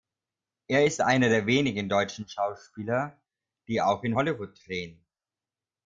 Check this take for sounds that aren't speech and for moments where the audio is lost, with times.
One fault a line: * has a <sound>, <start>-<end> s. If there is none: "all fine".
all fine